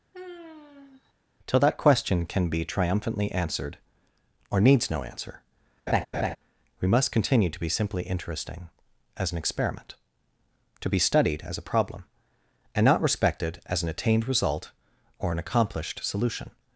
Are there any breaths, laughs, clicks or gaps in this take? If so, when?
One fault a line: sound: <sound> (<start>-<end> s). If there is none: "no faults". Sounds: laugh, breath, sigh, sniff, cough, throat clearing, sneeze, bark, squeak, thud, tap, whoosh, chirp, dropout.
sound: sigh (0.1-1.1 s)
sound: laugh (5.9-6.4 s)